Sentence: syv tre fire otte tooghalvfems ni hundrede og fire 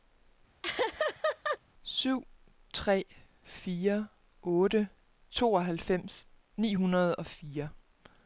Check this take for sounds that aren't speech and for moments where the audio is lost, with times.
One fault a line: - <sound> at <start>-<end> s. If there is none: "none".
- laugh at 0.6-1.6 s